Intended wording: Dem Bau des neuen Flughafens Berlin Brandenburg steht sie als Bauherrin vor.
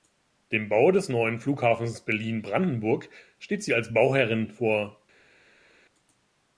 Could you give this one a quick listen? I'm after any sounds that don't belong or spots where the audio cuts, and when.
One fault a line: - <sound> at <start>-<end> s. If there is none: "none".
none